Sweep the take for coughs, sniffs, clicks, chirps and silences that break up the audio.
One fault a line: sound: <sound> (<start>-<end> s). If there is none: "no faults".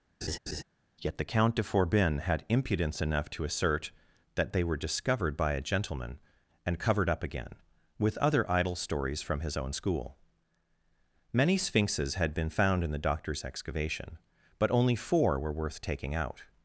sound: laugh (0.2-0.6 s)